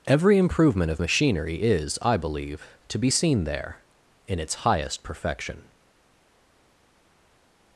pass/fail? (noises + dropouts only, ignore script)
pass